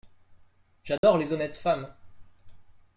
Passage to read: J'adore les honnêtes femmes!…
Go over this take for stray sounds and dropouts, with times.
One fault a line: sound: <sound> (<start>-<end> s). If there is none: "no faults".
sound: dropout (1.0-1.0 s)